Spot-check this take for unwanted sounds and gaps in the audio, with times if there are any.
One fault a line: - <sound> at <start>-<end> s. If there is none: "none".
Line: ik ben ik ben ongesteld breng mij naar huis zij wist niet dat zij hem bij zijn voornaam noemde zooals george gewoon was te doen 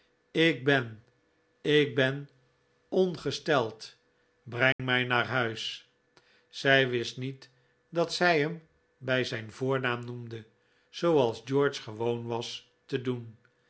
- dropout at 4.7-4.8 s